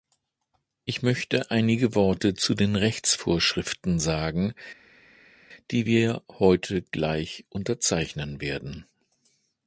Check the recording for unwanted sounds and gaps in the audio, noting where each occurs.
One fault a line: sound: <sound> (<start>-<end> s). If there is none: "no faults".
no faults